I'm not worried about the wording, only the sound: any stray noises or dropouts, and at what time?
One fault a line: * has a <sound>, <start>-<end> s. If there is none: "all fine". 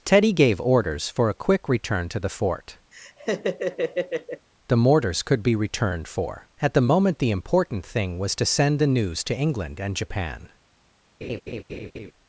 * has a laugh, 2.9-4.5 s
* has a laugh, 11.2-12.1 s